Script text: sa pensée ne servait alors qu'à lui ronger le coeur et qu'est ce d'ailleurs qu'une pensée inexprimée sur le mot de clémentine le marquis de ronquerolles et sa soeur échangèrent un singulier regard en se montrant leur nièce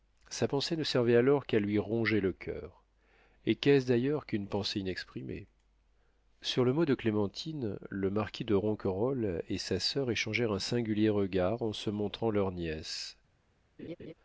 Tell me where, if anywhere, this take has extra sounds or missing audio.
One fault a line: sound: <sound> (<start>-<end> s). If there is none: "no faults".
sound: laugh (13.8-14.1 s)